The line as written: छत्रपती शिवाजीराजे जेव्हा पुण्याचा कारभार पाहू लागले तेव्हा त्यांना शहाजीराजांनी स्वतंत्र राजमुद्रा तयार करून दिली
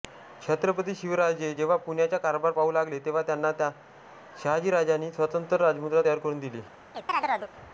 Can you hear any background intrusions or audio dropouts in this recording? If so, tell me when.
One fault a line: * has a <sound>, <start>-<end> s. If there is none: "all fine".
* has a chirp, 6.9-7.5 s